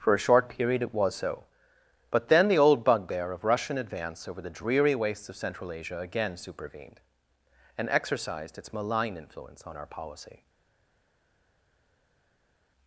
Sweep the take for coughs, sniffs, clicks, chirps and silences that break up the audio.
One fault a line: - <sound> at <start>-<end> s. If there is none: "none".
none